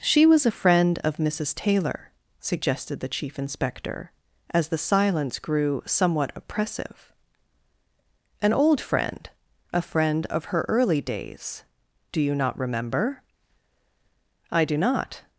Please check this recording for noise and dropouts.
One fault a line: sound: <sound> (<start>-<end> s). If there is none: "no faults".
no faults